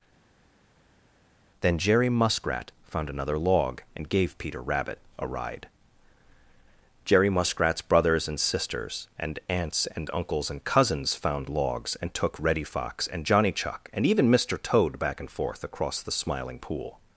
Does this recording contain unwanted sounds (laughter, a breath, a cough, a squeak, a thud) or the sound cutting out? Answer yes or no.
no